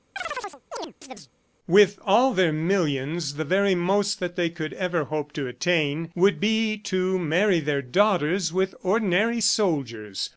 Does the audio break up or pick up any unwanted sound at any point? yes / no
yes